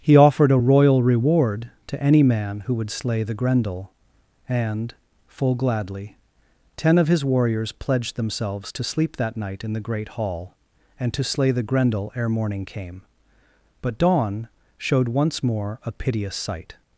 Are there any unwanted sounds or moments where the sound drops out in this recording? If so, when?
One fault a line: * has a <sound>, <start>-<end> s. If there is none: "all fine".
all fine